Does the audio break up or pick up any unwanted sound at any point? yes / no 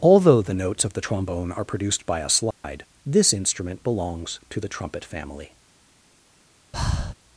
yes